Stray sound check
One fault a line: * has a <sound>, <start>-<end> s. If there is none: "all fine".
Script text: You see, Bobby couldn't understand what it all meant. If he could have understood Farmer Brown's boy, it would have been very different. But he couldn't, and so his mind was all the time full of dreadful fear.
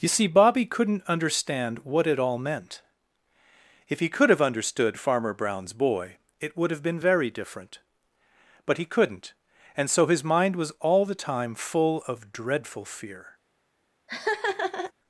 * has a laugh, 14.1-14.9 s